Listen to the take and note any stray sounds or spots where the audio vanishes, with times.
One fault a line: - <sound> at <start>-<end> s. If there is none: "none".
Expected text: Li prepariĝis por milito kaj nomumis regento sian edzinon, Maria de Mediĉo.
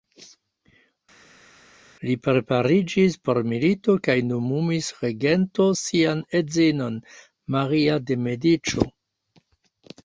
none